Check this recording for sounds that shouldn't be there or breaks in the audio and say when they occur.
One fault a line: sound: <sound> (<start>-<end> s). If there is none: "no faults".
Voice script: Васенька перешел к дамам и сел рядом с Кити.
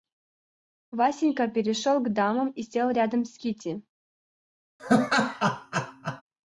sound: laugh (4.8-6.2 s)